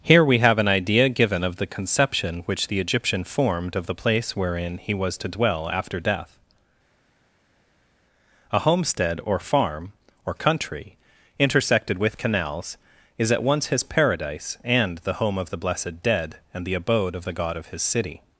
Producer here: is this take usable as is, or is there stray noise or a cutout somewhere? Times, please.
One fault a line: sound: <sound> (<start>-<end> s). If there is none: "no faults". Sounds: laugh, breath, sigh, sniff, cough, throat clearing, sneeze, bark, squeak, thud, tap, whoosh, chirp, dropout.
no faults